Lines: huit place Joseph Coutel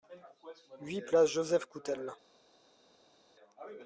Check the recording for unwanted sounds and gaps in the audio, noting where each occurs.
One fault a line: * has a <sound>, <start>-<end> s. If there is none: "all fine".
all fine